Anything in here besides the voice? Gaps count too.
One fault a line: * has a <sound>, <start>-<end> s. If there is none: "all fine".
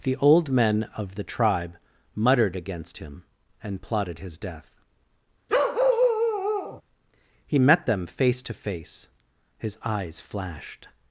* has a bark, 5.5-6.8 s